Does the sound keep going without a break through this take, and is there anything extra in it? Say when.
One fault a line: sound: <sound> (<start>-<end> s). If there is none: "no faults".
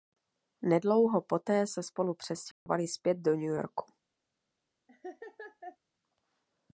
sound: dropout (2.5-2.7 s)
sound: laugh (4.9-5.8 s)